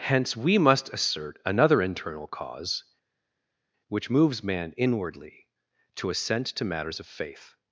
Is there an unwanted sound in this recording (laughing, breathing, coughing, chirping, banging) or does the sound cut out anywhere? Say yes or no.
no